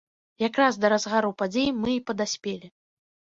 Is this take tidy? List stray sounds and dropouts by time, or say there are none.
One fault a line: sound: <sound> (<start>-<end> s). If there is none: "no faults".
no faults